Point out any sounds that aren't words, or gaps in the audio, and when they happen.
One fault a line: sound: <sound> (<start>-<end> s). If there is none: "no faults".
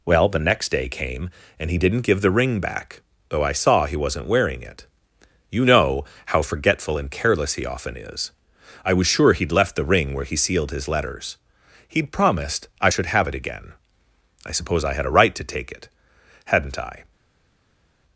no faults